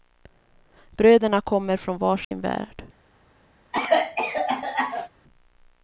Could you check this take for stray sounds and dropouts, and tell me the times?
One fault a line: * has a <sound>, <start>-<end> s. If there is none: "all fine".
* has a dropout, 2.2-2.3 s
* has a cough, 3.7-5.1 s